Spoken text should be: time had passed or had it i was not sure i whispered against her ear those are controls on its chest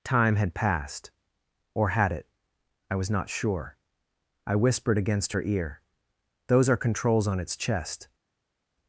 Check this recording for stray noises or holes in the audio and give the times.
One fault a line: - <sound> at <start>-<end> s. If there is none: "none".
none